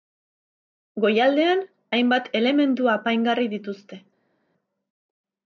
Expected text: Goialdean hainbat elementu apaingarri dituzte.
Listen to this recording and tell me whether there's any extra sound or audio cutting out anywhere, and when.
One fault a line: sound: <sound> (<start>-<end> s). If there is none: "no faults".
no faults